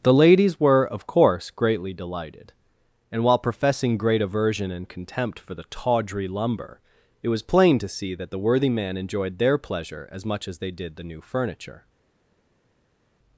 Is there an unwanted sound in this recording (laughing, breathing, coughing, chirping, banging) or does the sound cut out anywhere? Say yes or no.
no